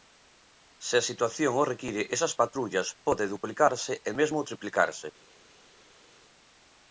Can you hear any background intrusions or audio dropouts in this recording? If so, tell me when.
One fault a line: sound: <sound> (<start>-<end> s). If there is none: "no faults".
no faults